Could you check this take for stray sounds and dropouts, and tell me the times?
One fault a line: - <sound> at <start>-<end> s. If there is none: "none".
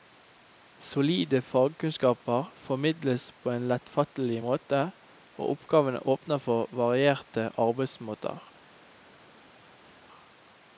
none